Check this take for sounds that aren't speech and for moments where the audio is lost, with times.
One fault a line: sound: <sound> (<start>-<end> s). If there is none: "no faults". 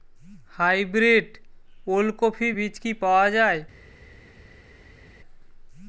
no faults